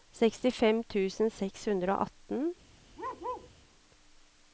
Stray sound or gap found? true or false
true